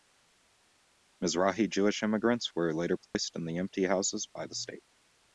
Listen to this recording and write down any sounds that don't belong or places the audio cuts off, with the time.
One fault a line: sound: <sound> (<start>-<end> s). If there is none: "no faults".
sound: dropout (3.1-3.2 s)